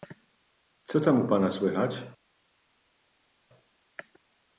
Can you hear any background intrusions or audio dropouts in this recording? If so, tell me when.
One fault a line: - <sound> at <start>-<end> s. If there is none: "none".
none